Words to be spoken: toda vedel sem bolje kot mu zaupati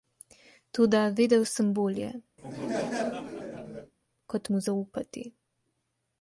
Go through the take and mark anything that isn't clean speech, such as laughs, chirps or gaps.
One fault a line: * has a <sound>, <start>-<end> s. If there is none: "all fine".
* has a laugh, 2.4-3.9 s